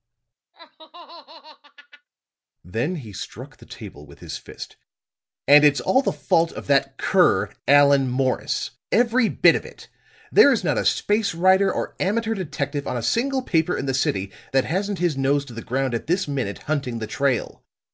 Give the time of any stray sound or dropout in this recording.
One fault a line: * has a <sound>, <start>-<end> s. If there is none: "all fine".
* has a laugh, 0.5-2.1 s